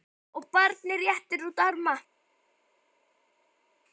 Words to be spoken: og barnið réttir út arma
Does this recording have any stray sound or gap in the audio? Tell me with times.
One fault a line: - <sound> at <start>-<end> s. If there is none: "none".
none